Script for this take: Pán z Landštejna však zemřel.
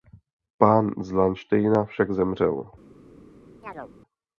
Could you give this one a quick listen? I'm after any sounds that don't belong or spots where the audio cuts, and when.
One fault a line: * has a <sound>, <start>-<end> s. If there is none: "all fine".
* has a chirp, 3.6-3.9 s